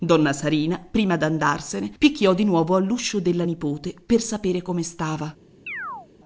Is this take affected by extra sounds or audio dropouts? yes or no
yes